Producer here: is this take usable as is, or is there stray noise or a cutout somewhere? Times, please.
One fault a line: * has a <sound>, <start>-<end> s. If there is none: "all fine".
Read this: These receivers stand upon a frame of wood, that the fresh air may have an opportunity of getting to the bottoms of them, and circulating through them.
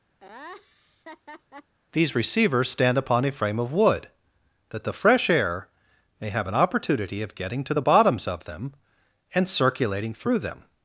* has a laugh, 0.2-1.7 s